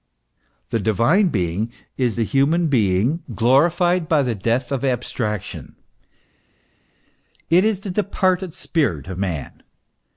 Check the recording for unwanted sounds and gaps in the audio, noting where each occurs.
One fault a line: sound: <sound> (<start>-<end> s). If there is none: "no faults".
no faults